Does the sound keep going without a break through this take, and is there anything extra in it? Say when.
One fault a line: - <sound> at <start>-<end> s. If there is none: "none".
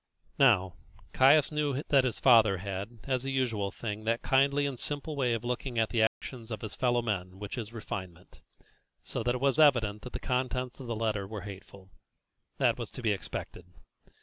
- dropout at 6.1-6.2 s